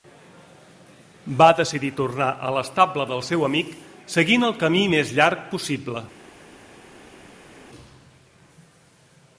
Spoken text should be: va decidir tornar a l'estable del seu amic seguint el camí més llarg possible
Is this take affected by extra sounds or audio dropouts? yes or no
no